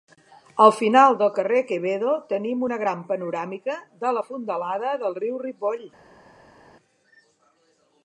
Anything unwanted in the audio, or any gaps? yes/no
no